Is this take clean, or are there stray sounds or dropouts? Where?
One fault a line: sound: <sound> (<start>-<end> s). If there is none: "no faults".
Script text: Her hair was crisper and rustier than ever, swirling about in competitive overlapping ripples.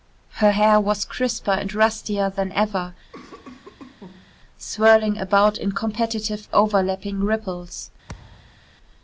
sound: cough (3.1-4.4 s)
sound: thud (8.1-8.6 s)